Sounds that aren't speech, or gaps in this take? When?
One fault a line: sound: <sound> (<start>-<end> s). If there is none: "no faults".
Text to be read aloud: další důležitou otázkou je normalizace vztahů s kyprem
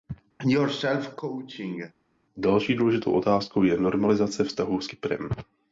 sound: cough (0.4-1.9 s)